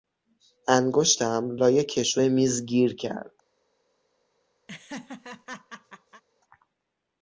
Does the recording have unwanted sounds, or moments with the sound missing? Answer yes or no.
yes